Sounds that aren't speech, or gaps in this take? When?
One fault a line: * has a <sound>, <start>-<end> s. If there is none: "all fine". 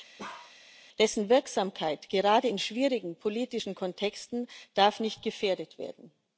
* has a bark, 0.2-0.6 s